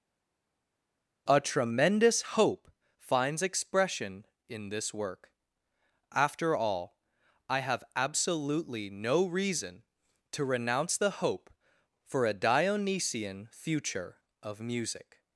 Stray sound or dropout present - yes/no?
no